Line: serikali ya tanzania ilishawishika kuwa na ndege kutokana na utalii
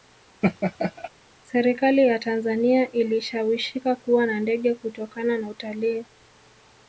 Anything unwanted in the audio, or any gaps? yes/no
yes